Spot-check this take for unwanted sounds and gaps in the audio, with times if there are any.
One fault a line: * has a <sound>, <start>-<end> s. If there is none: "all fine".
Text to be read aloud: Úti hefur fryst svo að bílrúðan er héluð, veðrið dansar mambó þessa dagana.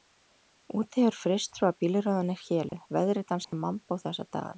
* has a dropout, 2.7-2.7 s
* has a dropout, 3.4-3.5 s